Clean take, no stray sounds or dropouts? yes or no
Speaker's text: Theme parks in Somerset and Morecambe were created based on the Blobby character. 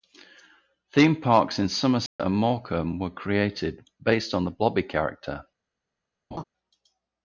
no